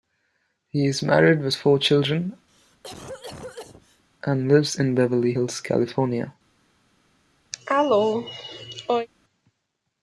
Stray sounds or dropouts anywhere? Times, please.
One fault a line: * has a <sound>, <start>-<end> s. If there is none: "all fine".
* has a cough, 2.5-4.0 s
* has a cough, 7.5-9.1 s